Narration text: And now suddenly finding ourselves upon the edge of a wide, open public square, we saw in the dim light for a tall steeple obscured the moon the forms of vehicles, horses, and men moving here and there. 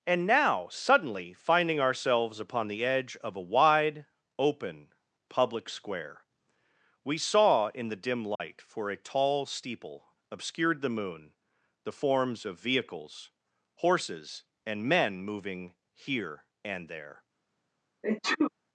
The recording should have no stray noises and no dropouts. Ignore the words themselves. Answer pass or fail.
fail